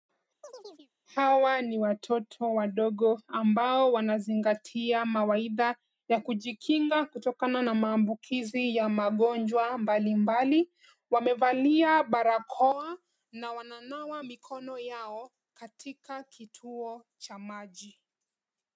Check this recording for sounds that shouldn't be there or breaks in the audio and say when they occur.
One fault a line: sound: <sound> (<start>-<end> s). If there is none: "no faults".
sound: chirp (0.4-0.9 s)